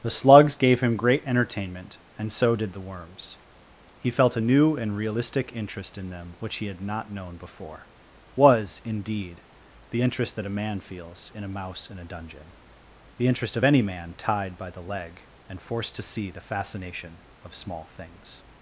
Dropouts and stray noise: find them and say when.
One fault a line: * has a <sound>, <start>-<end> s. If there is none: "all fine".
all fine